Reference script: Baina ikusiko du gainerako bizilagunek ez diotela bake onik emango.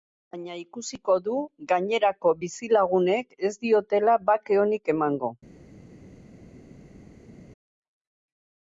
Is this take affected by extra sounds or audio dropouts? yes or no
no